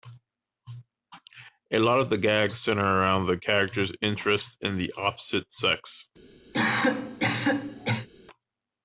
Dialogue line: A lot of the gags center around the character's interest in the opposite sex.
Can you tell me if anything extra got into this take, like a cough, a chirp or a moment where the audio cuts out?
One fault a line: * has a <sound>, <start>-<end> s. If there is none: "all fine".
* has a cough, 6.5-8.1 s